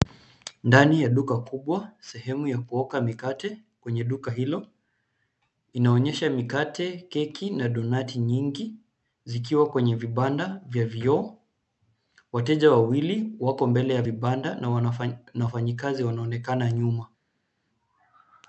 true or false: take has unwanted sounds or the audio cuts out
false